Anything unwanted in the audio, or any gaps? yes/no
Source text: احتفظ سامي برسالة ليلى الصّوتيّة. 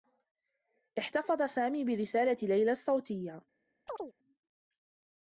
yes